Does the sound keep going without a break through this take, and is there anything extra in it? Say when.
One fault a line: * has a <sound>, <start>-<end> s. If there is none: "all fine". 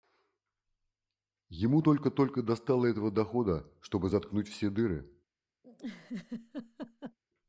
* has a laugh, 5.6-7.2 s